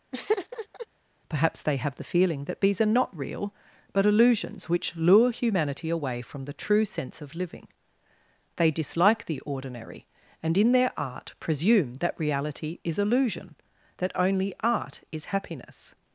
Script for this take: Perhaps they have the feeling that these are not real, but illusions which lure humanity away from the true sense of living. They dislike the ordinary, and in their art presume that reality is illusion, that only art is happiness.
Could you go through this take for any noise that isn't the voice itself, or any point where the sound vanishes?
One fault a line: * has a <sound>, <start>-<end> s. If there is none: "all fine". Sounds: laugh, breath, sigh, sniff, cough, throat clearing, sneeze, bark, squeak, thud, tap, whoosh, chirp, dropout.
* has a laugh, 0.1-0.9 s